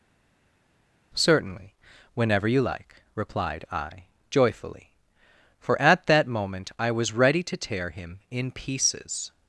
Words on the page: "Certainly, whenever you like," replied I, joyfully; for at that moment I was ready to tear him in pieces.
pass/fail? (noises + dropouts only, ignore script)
pass